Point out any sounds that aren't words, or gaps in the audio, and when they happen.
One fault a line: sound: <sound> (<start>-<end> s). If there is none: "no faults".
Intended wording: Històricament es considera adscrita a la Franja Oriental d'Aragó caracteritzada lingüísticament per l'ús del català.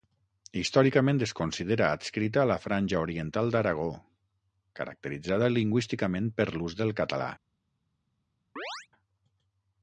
sound: chirp (8.6-8.9 s)